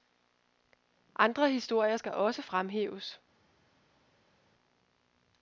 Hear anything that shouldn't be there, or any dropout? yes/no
no